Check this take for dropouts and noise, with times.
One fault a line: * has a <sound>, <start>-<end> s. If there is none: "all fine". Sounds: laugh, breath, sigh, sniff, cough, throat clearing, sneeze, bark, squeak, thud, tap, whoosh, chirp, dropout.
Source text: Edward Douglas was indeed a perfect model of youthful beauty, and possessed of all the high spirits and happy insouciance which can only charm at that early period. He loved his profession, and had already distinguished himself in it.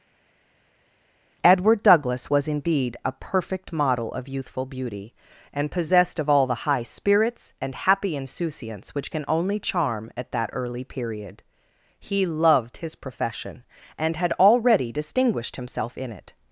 all fine